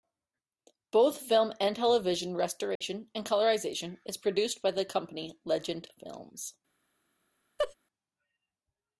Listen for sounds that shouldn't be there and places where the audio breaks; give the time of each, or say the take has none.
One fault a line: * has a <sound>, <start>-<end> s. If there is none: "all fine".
* has a dropout, 2.8-2.8 s
* has a laugh, 7.6-7.7 s